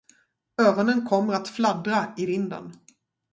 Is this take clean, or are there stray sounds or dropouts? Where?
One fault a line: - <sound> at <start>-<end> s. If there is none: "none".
none